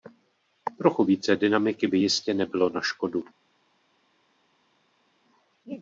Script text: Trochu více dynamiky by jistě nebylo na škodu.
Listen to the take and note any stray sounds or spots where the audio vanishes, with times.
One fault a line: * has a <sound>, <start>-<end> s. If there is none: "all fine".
all fine